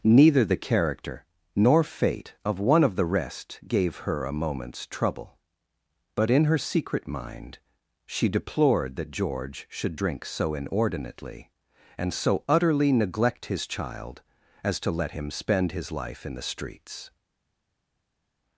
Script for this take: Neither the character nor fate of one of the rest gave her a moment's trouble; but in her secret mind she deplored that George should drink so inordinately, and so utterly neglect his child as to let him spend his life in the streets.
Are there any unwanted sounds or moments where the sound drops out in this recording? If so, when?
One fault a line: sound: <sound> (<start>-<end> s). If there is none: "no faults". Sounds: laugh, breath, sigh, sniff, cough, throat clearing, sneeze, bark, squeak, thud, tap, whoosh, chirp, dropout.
no faults